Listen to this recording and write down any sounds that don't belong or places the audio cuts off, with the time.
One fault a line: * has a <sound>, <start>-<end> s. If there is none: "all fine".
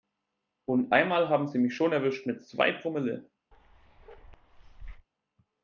* has a bark, 3.5-5.1 s